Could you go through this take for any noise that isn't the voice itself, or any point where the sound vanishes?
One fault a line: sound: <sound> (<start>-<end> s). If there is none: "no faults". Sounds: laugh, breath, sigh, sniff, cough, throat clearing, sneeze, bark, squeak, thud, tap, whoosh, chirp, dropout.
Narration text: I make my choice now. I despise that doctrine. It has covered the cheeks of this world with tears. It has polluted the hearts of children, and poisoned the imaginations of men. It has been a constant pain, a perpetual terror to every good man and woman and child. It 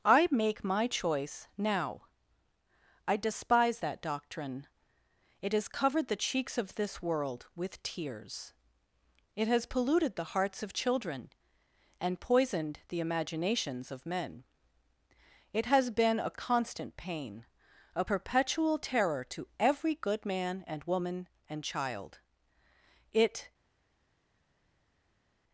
no faults